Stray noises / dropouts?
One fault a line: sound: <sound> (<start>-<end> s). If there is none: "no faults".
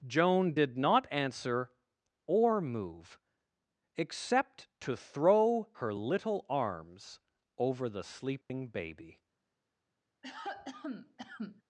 sound: dropout (8.4-8.5 s)
sound: cough (10.2-11.6 s)